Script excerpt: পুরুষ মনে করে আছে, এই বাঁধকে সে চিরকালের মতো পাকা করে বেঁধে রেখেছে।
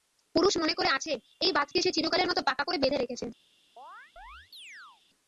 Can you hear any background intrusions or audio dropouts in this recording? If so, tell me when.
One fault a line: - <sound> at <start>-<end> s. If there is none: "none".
- chirp at 3.8-5.0 s